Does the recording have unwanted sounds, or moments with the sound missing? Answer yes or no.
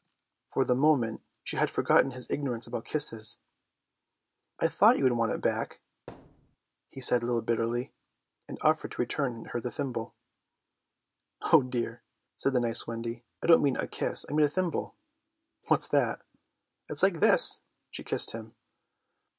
yes